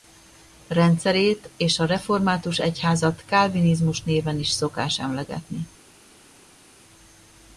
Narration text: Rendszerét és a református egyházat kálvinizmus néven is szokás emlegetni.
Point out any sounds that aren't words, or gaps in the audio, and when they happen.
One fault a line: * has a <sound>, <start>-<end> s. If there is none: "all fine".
all fine